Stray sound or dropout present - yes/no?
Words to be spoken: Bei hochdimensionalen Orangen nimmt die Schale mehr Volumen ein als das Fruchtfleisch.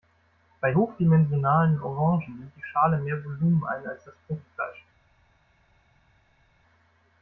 no